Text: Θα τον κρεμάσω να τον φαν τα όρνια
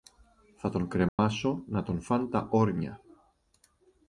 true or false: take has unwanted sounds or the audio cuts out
true